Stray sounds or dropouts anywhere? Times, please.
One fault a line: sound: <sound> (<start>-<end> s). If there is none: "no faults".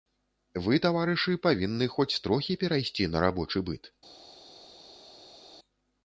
no faults